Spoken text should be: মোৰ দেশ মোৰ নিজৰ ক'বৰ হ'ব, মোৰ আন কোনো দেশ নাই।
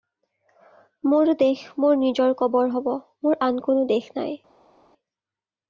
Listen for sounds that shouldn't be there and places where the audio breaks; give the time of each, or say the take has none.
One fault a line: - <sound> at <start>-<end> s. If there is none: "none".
none